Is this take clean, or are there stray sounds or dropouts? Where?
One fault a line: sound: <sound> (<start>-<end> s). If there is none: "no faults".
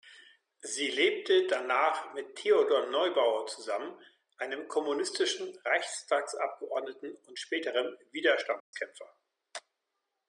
sound: dropout (8.6-8.7 s)